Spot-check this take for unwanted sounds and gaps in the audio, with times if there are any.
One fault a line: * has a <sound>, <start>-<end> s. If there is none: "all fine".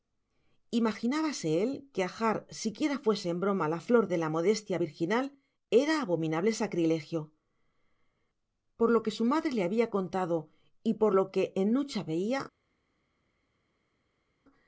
all fine